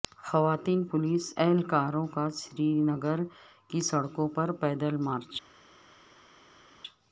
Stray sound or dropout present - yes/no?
no